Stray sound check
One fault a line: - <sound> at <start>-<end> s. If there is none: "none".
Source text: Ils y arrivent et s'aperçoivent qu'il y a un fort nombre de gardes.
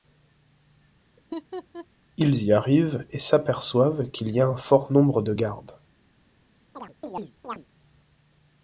- laugh at 1.2-1.9 s
- chirp at 6.7-7.7 s